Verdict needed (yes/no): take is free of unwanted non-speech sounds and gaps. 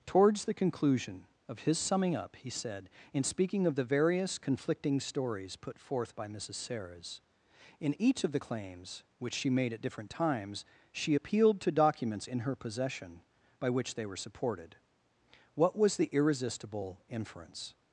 yes